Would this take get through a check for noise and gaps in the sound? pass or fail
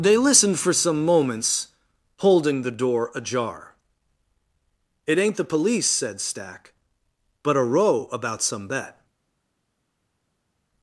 pass